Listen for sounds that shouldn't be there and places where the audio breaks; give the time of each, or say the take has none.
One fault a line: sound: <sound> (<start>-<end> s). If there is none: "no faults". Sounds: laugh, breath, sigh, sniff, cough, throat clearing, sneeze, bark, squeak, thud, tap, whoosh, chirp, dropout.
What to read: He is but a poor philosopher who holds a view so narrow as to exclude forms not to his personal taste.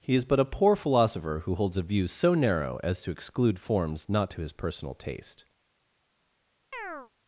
sound: chirp (6.7-7.1 s)